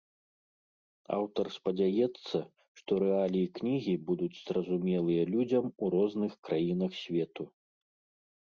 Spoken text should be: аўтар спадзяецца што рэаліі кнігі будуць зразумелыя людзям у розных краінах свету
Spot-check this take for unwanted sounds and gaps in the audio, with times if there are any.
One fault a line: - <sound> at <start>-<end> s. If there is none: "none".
none